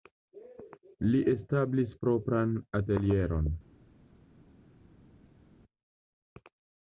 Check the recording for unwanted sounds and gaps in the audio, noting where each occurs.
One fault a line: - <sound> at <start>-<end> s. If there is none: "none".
none